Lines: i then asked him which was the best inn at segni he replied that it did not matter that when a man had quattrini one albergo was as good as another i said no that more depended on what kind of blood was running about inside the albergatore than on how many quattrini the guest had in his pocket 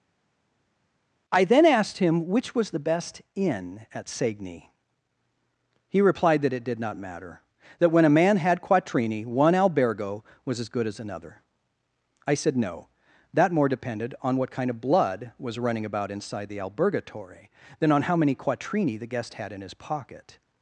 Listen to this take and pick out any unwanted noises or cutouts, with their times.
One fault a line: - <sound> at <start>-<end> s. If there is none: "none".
none